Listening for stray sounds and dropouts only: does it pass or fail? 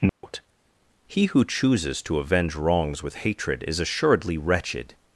fail